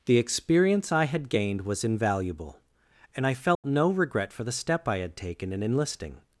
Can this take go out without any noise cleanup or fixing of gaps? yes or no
no